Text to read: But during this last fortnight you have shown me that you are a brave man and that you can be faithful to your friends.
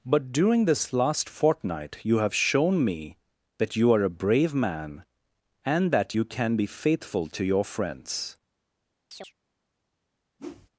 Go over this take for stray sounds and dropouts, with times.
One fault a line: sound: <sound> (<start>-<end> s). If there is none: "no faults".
sound: chirp (9.1-9.3 s)
sound: whoosh (10.4-10.7 s)